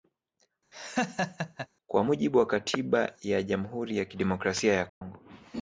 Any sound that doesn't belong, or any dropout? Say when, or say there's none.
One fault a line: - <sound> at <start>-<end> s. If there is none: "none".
- laugh at 0.7-1.7 s
- dropout at 4.9-5.0 s